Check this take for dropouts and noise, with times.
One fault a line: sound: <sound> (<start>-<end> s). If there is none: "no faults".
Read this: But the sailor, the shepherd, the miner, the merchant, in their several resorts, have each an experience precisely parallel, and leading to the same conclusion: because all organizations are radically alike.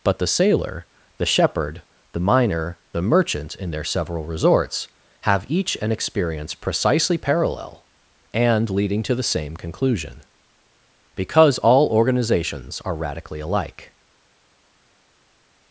no faults